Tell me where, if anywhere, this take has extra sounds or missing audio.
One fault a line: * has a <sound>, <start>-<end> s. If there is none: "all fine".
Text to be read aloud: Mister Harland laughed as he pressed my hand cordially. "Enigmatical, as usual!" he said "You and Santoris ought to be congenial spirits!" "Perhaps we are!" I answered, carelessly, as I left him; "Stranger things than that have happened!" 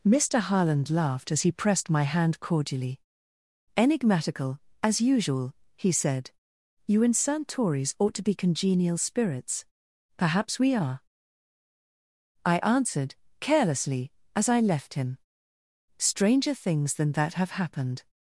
all fine